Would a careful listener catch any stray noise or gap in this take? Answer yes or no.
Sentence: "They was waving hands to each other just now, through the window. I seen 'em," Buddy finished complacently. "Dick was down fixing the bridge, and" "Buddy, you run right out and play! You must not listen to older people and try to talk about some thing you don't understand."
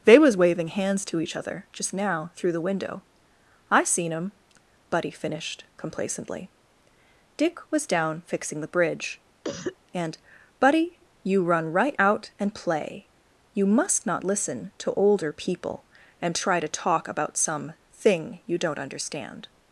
yes